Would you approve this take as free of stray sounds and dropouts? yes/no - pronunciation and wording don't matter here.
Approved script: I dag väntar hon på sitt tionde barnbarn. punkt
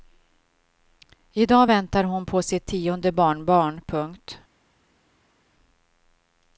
yes